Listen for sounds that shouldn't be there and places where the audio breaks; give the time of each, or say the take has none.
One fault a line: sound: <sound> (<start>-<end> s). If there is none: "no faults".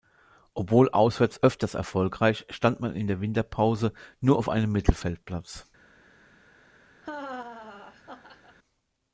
sound: laugh (7.0-8.6 s)